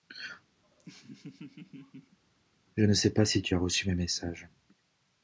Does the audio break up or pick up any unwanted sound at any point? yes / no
yes